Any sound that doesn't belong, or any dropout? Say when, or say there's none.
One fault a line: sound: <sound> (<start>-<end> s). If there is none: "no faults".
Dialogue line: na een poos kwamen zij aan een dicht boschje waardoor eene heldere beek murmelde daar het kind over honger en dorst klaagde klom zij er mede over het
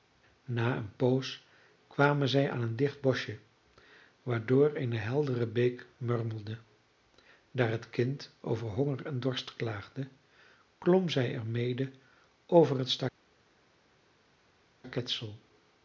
no faults